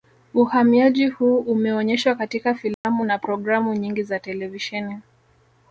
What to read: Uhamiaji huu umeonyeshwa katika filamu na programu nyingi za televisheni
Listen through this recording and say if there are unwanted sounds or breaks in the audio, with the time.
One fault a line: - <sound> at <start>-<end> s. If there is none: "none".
- dropout at 2.7-2.8 s